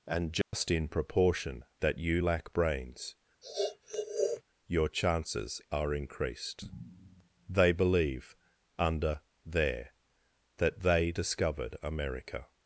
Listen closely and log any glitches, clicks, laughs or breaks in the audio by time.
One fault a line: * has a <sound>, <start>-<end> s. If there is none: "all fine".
* has a dropout, 0.4-0.5 s
* has a sniff, 3.4-4.4 s